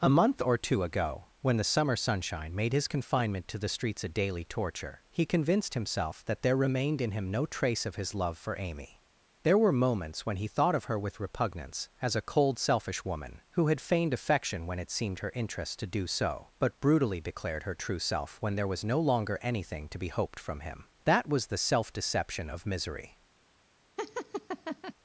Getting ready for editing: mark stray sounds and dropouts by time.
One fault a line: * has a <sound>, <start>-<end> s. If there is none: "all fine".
* has a laugh, 24.0-24.9 s